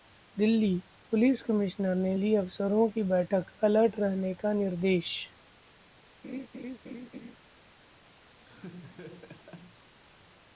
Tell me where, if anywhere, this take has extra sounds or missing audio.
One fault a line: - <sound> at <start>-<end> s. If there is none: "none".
- laugh at 6.2-7.4 s
- laugh at 8.4-9.9 s